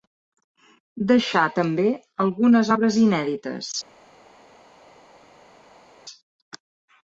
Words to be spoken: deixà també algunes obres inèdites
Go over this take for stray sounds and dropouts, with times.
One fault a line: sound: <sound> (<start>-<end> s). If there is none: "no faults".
no faults